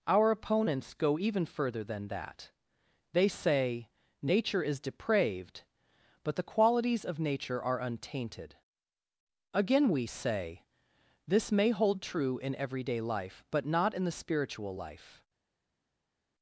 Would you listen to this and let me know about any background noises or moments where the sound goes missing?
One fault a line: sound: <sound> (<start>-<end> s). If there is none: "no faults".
no faults